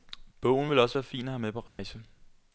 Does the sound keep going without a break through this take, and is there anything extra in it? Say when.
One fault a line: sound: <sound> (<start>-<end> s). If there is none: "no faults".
sound: dropout (1.7-1.8 s)